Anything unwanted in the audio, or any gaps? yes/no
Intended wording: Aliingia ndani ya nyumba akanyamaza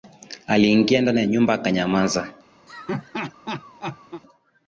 yes